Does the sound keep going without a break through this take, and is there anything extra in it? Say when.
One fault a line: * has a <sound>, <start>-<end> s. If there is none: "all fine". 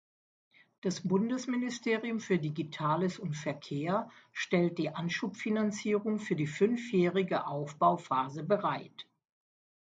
all fine